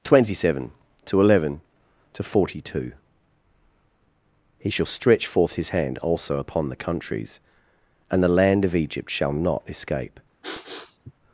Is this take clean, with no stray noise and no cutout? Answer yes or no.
no